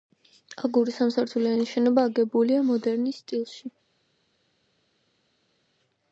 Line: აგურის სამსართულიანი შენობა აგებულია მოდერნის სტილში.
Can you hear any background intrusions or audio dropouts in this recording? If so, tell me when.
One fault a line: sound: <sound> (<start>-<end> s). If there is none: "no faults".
no faults